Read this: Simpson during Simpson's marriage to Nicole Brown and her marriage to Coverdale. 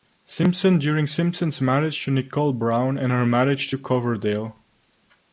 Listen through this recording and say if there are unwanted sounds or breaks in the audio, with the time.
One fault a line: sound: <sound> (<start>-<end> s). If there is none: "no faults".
no faults